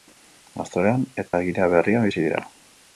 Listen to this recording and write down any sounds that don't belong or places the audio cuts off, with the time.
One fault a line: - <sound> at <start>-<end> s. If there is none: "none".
- dropout at 1.3-1.3 s